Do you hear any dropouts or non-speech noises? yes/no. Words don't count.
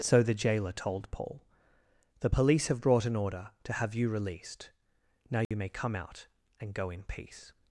yes